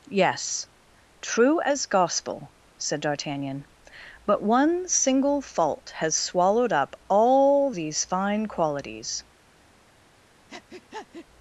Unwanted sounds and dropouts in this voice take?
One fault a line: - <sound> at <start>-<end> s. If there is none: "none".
- breath at 10.5-11.3 s